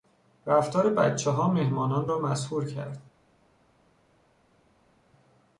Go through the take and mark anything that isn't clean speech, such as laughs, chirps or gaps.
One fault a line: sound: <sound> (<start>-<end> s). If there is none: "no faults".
no faults